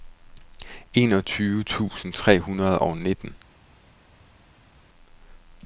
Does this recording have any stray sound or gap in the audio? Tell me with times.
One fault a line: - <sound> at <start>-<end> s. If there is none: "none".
none